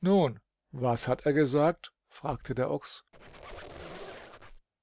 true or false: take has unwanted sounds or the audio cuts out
true